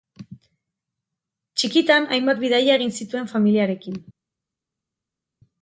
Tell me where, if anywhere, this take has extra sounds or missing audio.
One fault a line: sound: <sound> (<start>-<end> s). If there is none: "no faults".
no faults